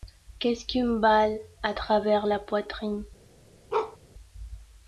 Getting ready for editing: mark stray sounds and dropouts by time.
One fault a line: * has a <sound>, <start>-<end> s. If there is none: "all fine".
* has a bark, 3.7-4.0 s